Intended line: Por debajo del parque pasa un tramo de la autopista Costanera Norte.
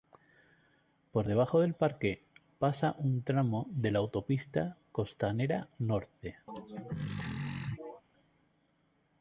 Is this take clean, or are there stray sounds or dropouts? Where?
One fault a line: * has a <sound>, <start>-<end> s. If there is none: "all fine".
* has a throat clearing, 6.5-8.0 s